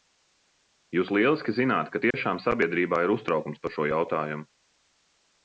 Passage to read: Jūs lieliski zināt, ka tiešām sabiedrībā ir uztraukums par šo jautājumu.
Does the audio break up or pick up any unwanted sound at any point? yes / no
yes